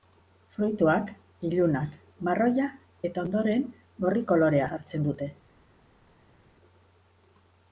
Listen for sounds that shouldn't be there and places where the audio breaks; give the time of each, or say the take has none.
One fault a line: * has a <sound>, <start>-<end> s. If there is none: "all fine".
all fine